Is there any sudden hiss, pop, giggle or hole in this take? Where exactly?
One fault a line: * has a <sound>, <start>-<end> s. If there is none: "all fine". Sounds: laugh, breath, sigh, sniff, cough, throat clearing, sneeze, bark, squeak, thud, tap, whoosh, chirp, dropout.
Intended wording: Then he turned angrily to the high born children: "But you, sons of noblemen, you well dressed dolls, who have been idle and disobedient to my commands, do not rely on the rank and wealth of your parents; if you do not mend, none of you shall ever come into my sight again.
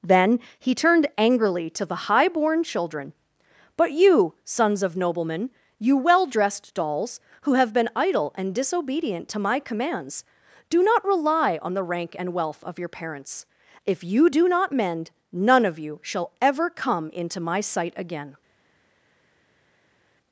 all fine